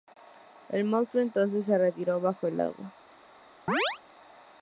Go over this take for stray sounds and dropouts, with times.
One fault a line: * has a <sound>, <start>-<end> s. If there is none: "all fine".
* has a chirp, 3.7-4.0 s